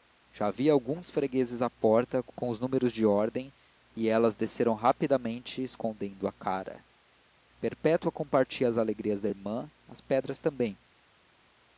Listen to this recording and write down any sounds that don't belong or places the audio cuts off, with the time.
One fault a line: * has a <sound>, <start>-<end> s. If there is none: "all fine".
all fine